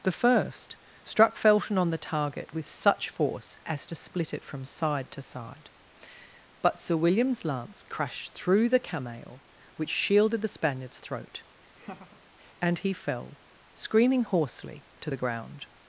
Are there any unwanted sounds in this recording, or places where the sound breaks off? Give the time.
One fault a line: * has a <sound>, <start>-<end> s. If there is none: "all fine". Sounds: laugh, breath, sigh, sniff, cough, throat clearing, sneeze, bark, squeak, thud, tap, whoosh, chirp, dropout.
* has a laugh, 11.7-12.2 s